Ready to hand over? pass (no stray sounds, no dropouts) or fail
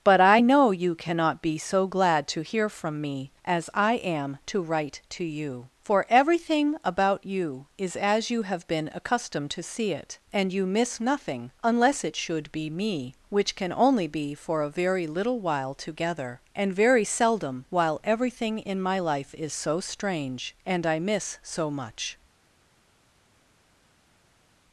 pass